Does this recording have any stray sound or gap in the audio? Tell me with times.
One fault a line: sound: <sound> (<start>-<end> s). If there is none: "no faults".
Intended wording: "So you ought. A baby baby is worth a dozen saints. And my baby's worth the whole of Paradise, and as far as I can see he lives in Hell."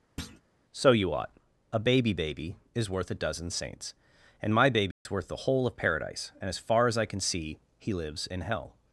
sound: thud (0.2-0.4 s)
sound: dropout (4.9-5.1 s)